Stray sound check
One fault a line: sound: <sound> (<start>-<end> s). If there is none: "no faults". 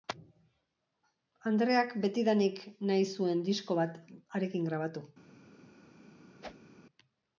sound: whoosh (6.4-6.7 s)